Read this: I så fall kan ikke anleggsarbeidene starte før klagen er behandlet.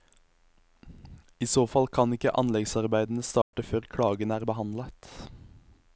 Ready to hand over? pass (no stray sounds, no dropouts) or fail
fail